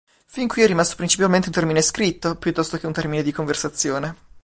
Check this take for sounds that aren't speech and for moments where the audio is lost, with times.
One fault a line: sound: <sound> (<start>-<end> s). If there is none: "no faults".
no faults